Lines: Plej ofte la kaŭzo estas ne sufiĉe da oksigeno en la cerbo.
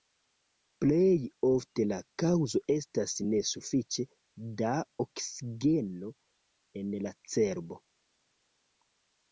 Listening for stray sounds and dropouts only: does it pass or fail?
pass